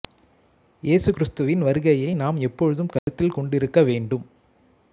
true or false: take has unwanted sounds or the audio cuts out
true